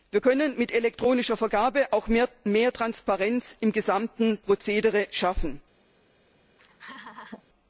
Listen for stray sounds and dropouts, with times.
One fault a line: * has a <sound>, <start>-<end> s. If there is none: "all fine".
* has a laugh, 6.5-7.4 s